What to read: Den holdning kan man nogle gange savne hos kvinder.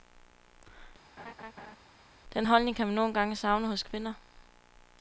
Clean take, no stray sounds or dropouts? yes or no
no